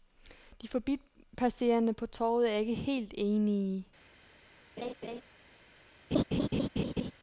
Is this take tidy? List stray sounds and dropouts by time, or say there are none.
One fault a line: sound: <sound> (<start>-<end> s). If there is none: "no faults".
sound: laugh (4.8-5.2 s)
sound: laugh (6.1-7.1 s)